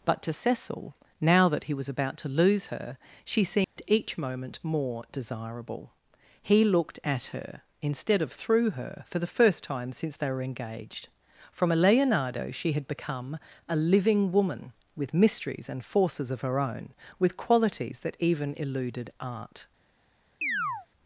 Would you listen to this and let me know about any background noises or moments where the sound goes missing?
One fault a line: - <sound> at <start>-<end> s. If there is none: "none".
- dropout at 3.6-3.8 s
- chirp at 20.4-20.9 s